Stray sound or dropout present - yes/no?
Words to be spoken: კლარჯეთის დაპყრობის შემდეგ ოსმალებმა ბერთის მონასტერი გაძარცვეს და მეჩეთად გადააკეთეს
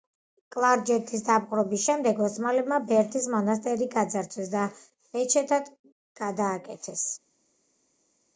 no